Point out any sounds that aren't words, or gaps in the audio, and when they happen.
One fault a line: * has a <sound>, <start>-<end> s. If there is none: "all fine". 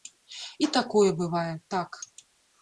all fine